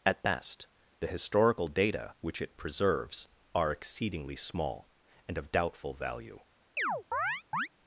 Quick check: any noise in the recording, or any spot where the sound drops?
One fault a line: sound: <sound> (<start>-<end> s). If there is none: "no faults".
sound: chirp (6.8-7.7 s)